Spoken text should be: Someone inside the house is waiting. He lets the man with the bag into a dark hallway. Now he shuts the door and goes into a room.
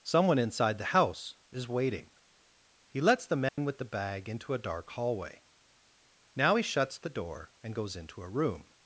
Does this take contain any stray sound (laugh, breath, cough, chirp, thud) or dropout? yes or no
yes